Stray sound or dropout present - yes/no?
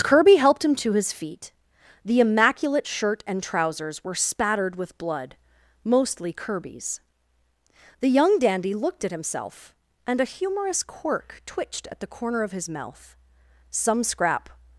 no